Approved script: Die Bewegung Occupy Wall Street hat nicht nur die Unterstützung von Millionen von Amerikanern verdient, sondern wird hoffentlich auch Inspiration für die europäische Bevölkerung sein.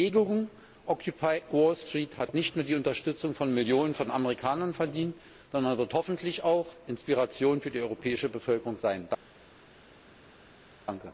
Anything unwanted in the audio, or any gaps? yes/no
no